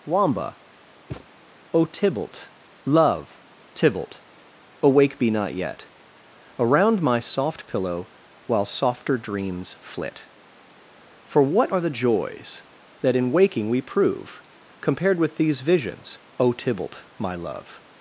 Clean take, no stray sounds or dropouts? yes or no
no